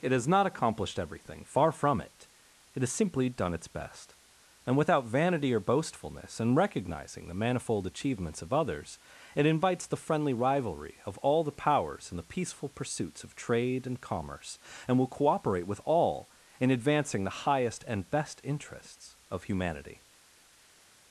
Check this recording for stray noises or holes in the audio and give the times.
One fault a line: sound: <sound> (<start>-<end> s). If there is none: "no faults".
no faults